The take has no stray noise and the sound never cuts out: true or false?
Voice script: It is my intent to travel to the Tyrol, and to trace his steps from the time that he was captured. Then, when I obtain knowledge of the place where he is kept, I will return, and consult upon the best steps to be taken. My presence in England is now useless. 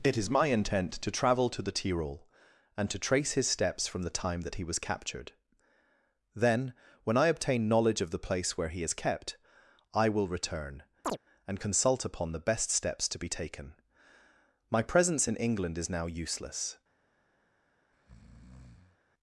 false